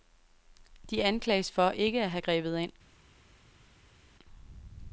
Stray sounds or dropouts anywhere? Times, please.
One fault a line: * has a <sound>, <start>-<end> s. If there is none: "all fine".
all fine